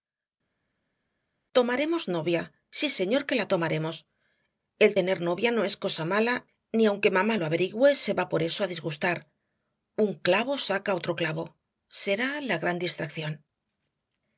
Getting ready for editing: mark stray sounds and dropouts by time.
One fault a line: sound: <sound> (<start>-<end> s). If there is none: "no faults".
no faults